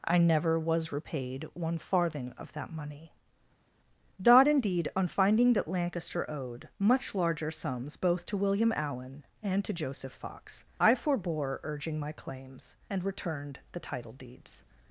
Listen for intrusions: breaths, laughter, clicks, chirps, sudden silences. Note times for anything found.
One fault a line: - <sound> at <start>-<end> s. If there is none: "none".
none